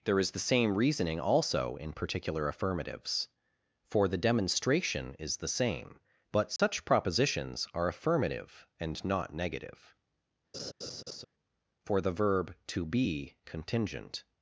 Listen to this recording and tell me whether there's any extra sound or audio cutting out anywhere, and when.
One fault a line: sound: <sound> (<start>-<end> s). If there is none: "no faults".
sound: dropout (6.6-6.6 s)
sound: laugh (10.5-11.2 s)